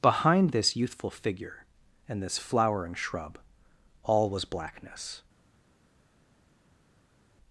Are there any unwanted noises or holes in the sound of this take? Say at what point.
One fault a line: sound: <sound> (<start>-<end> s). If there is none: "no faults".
no faults